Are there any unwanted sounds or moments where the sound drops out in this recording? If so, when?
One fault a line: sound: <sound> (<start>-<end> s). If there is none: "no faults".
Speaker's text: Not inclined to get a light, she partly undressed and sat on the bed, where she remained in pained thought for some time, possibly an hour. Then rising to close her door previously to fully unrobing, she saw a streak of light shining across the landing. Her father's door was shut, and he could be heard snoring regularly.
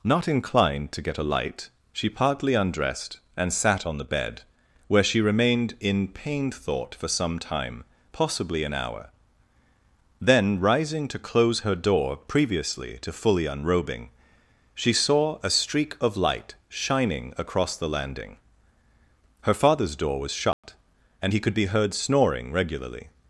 sound: dropout (20.5-20.6 s)